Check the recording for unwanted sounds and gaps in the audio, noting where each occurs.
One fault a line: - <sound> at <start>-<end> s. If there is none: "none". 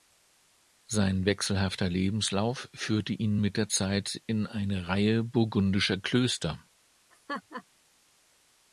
- laugh at 7.1-7.6 s